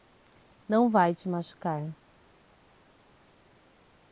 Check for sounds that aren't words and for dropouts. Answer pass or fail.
pass